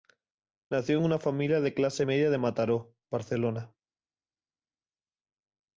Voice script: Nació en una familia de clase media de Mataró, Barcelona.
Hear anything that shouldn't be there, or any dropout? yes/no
no